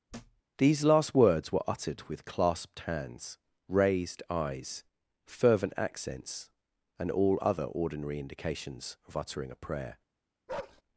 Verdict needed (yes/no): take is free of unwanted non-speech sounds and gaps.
no